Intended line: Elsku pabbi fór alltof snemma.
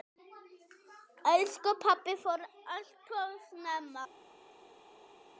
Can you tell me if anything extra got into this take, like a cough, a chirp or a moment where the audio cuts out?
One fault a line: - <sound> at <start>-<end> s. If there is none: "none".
none